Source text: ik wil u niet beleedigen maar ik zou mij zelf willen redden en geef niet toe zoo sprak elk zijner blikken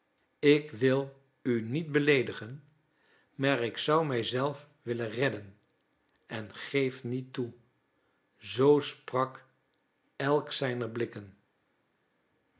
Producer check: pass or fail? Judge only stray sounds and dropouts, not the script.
pass